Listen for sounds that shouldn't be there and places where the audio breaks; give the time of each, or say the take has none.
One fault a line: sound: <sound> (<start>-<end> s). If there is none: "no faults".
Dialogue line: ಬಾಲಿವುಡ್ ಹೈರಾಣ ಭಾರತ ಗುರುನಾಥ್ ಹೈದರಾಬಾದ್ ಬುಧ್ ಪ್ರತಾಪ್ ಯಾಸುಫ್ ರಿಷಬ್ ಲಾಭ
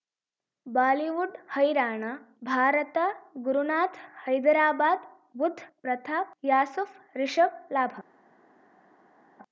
no faults